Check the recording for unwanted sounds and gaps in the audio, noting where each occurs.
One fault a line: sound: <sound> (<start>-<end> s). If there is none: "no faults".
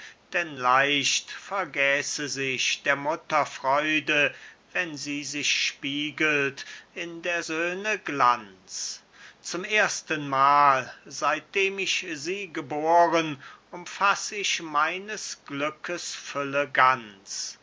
no faults